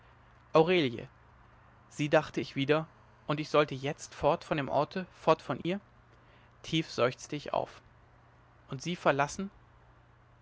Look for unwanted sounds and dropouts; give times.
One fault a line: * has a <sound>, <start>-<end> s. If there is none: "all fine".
* has a dropout, 5.6-5.6 s